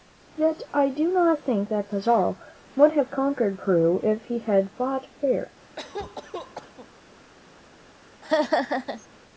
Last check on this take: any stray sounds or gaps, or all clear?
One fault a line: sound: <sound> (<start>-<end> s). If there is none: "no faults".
sound: cough (5.8-6.9 s)
sound: laugh (8.2-9.1 s)